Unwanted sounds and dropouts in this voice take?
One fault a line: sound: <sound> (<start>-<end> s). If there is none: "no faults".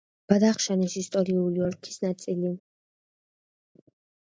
no faults